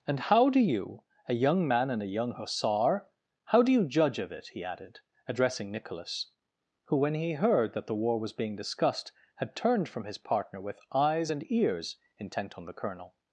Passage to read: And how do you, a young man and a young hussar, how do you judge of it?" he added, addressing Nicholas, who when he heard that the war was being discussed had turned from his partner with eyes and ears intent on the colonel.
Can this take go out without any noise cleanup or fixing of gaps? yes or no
yes